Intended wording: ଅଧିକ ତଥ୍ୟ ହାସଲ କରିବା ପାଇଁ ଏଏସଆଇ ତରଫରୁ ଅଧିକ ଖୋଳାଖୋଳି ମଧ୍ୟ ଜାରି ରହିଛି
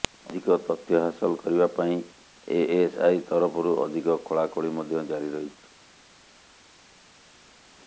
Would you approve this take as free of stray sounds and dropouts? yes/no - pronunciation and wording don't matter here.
yes